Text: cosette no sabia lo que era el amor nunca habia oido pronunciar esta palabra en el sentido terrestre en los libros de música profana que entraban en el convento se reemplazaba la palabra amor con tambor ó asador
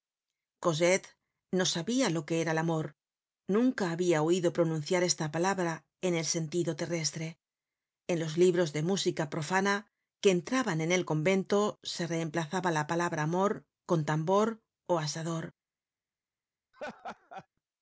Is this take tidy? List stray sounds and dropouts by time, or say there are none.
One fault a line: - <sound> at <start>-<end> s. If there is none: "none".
- laugh at 16.7-17.5 s